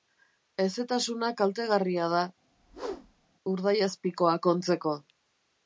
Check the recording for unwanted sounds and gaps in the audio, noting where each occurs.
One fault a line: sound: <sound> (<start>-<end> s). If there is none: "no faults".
sound: whoosh (2.5-3.3 s)